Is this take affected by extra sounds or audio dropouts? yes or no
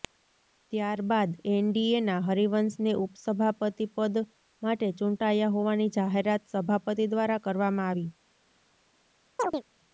yes